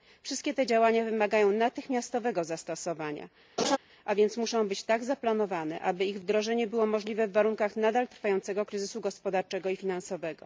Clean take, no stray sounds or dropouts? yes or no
no